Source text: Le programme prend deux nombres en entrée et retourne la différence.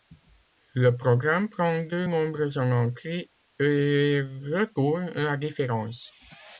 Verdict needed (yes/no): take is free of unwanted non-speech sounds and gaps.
yes